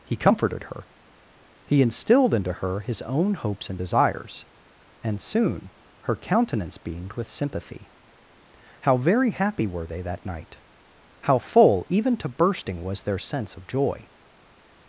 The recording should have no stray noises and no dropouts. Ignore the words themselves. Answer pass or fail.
pass